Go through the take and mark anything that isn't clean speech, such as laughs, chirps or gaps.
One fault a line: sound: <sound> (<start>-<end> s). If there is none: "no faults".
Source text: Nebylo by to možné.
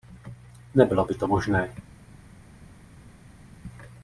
no faults